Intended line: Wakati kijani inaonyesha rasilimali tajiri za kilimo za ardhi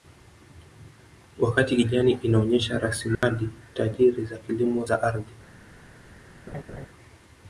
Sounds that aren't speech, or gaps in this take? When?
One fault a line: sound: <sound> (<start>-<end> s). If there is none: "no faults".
sound: dropout (3.2-3.2 s)
sound: laugh (6.5-6.9 s)